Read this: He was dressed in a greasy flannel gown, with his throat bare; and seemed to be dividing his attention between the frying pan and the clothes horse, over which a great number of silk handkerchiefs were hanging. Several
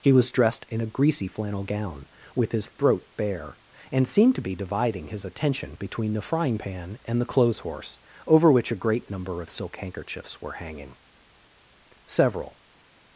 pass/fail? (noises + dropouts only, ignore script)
pass